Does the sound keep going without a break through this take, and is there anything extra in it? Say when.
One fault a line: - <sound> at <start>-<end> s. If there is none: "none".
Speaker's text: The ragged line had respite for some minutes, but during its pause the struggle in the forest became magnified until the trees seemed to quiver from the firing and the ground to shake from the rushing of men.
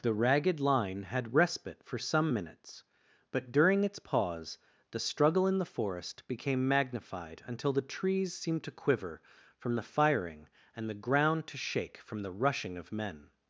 none